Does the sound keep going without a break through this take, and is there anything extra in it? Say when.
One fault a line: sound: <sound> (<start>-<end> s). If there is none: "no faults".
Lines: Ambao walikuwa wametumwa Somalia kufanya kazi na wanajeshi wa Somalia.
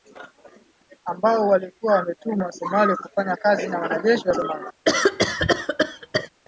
sound: cough (4.8-6.3 s)